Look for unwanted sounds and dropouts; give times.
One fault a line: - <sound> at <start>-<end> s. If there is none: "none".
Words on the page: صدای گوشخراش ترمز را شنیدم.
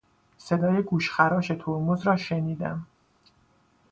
none